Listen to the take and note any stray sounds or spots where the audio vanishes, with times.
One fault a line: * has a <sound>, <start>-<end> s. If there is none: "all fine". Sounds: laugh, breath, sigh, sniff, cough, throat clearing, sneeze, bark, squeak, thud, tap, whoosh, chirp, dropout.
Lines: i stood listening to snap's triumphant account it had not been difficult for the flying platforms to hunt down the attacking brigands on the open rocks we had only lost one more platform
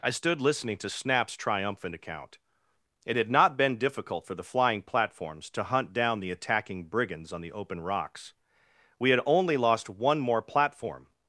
all fine